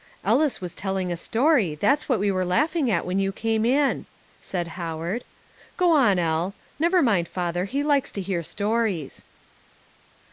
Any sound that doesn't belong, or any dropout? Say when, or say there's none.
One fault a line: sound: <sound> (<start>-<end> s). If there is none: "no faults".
no faults